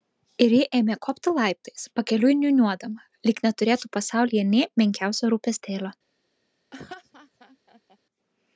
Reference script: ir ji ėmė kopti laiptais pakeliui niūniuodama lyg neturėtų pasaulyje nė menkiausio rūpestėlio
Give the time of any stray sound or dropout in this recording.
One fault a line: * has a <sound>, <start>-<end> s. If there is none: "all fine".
* has a laugh, 6.7-8.0 s